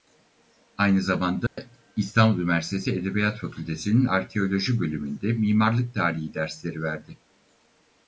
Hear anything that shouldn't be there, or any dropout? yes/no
yes